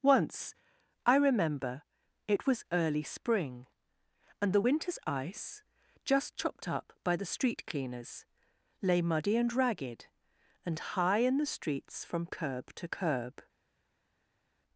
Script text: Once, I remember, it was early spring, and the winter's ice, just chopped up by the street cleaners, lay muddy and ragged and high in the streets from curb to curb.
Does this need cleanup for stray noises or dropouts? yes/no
no